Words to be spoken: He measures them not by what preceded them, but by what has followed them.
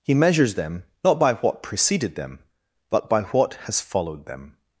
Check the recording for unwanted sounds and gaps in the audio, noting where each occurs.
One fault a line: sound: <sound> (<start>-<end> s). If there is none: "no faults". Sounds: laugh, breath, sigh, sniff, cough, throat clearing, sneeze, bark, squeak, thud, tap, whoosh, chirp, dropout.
no faults